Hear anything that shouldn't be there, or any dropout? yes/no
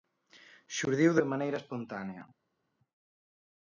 no